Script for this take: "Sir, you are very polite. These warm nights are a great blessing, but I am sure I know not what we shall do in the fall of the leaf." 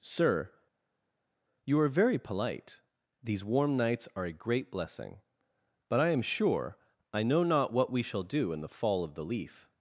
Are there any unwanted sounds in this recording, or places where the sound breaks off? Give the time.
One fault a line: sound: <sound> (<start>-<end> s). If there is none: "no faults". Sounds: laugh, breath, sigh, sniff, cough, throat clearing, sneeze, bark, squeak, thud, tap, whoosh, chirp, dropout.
no faults